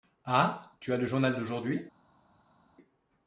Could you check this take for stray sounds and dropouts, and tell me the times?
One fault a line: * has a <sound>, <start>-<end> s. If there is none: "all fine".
all fine